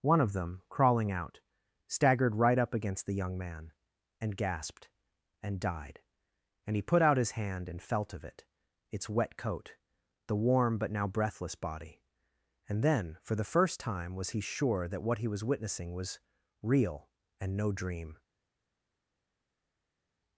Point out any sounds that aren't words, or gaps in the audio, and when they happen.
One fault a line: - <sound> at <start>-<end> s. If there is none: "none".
none